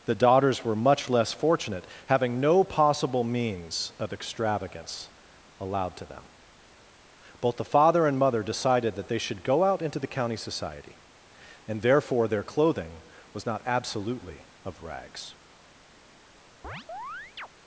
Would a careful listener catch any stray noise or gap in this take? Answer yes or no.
yes